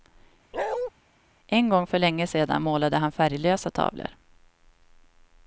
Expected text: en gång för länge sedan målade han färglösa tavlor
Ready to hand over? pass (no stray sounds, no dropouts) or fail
fail